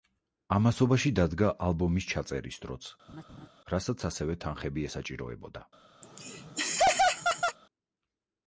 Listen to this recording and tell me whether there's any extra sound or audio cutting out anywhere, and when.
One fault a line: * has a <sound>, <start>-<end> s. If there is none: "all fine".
* has a laugh, 3.1-3.5 s
* has a laugh, 6.0-7.6 s